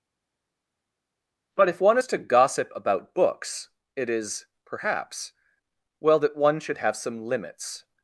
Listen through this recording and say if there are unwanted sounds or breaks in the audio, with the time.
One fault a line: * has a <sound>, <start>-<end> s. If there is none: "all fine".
all fine